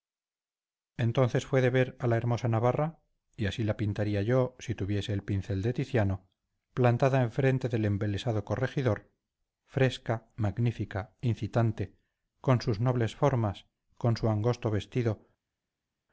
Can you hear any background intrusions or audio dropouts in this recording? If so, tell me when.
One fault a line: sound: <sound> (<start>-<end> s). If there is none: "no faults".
no faults